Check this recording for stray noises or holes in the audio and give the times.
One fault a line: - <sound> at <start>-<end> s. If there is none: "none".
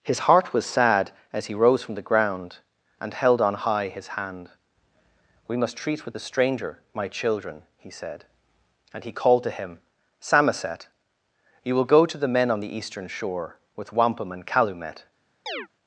- chirp at 15.5-15.7 s